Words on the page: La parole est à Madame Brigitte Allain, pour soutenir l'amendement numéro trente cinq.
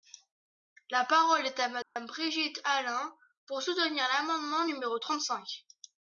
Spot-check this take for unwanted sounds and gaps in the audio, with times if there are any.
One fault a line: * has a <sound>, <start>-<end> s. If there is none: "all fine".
* has a dropout, 1.8-2.0 s